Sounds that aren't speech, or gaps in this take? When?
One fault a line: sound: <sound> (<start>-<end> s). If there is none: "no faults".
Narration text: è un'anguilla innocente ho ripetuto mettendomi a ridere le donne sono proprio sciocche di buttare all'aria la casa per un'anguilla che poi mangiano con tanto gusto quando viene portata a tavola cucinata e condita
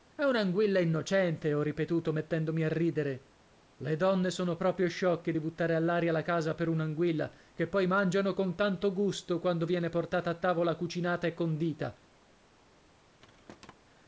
sound: thud (13.2-13.7 s)